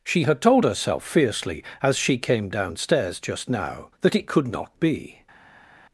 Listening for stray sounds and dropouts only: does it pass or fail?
pass